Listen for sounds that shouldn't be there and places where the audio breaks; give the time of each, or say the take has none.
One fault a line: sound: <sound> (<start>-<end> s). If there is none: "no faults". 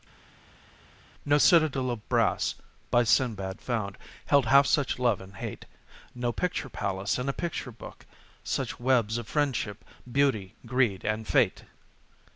no faults